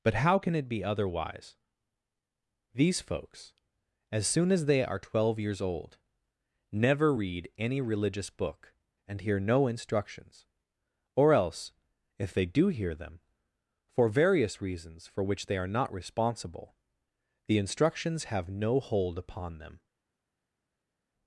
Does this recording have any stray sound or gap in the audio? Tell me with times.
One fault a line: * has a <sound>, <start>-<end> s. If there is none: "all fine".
all fine